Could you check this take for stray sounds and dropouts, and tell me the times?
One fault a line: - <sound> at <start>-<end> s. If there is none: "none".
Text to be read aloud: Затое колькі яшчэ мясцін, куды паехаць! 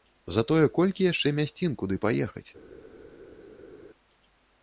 none